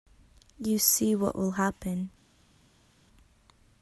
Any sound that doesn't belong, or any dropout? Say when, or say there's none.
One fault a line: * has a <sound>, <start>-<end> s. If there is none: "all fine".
all fine